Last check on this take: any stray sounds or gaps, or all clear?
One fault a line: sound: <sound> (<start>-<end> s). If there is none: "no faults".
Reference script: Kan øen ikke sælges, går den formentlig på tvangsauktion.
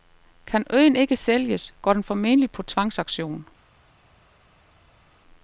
no faults